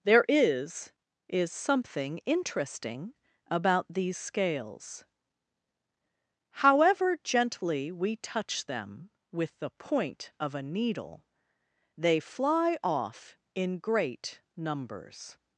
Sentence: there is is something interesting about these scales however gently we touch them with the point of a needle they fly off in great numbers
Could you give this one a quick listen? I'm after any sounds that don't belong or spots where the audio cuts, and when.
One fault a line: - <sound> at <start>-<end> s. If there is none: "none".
none